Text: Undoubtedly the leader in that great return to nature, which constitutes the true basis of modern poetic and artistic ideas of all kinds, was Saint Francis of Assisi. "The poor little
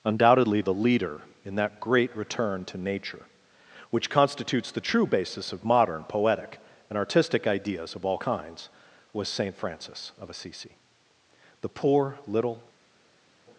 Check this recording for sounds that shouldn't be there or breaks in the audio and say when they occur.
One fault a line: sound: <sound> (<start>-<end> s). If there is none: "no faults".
no faults